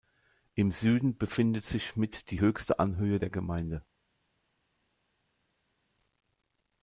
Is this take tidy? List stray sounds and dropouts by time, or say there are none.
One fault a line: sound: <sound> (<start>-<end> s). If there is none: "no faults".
no faults